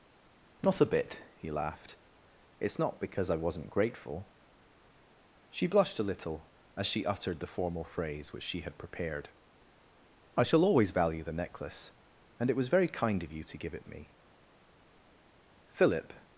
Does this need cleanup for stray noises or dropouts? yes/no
no